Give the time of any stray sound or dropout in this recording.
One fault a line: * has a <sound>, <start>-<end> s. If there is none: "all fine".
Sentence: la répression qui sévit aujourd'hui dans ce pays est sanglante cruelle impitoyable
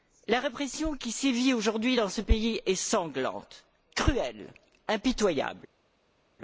all fine